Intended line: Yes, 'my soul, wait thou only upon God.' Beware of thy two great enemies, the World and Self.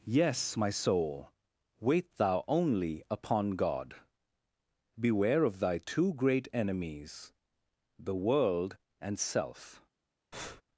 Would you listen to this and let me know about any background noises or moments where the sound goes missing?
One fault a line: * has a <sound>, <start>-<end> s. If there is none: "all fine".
* has a breath, 10.3-10.6 s